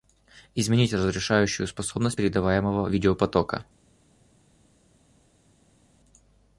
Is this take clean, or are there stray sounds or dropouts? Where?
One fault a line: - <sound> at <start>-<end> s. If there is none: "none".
none